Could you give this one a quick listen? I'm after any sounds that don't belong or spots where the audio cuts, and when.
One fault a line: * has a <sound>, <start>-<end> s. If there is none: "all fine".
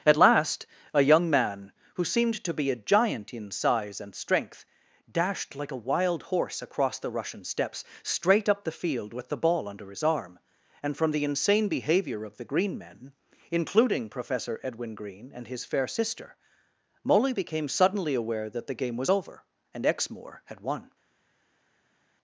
all fine